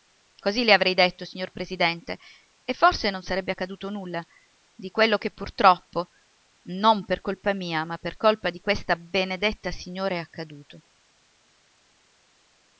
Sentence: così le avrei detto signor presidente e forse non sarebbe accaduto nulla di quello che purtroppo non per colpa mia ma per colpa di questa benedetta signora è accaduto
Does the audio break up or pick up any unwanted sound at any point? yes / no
no